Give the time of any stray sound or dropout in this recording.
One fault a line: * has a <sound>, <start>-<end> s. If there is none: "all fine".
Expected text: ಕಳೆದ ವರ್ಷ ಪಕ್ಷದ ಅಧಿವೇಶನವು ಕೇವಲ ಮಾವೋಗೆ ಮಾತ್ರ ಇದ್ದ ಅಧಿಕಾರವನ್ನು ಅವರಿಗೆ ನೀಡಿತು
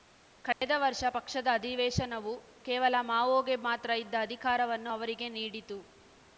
* has a dropout, 0.5-0.6 s